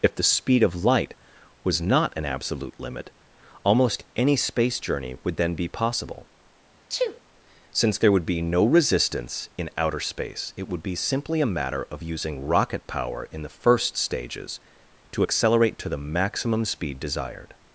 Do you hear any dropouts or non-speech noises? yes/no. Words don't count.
yes